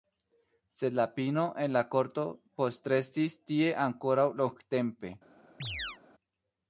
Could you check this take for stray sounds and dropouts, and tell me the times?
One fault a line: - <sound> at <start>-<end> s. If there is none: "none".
- chirp at 5.6-6.0 s